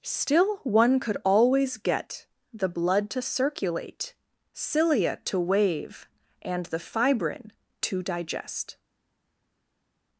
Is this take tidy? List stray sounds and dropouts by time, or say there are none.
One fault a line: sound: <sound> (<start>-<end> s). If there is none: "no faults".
no faults